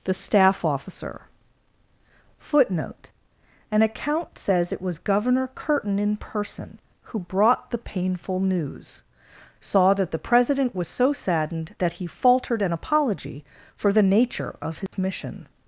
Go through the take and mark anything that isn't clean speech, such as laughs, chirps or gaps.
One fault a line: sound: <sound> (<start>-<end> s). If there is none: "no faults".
sound: dropout (14.9-14.9 s)